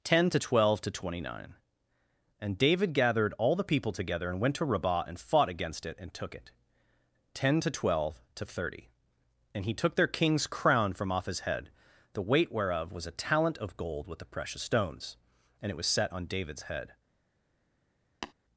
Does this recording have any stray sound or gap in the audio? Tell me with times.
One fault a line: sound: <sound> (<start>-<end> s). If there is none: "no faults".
sound: tap (18.2-18.3 s)